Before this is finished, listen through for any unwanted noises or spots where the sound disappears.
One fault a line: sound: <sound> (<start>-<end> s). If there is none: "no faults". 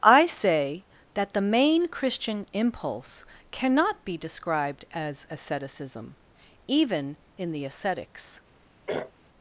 sound: throat clearing (8.9-9.1 s)